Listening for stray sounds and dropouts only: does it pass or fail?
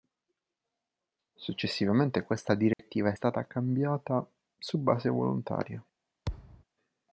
fail